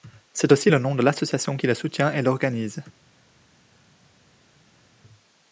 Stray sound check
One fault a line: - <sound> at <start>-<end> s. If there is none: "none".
none